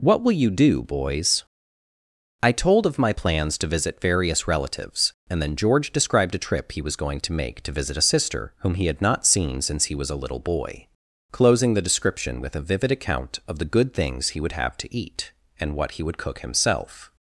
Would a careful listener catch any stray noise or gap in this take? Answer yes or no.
no